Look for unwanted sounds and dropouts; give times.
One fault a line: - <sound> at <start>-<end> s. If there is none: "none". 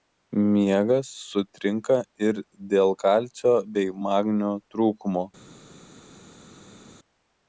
none